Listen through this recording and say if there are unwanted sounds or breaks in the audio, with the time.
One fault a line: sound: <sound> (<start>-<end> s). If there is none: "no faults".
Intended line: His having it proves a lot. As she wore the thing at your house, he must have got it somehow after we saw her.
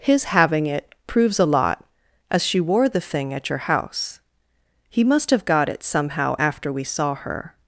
no faults